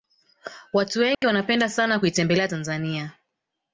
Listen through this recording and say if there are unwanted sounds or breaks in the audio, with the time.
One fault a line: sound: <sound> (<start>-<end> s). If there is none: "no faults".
sound: dropout (1.1-1.2 s)